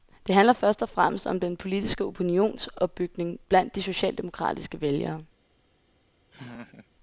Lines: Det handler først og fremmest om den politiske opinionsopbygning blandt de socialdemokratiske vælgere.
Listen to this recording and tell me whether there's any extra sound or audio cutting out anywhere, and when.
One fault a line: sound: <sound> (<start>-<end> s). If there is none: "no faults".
sound: laugh (6.3-6.9 s)